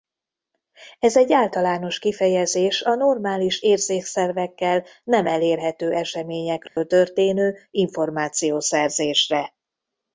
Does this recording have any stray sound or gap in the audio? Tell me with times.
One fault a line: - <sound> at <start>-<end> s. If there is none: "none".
- dropout at 6.7-6.8 s